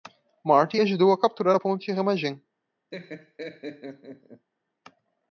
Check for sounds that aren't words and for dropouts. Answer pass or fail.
fail